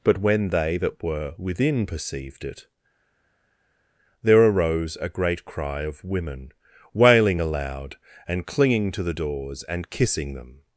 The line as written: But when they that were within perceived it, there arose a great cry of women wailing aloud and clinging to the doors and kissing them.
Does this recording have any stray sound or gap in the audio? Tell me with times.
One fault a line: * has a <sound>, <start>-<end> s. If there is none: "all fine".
all fine